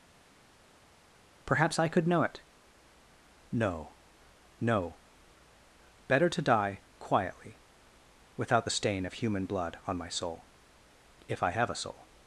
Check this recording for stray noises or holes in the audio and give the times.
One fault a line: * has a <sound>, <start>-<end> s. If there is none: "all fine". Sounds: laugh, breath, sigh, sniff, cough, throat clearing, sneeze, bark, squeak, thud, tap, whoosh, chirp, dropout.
all fine